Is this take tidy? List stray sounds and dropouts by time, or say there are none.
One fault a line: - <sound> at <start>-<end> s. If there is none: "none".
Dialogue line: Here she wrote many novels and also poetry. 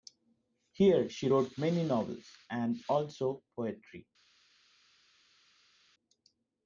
none